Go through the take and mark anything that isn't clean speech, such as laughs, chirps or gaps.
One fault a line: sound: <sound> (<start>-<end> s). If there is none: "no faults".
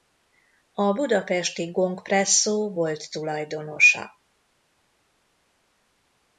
no faults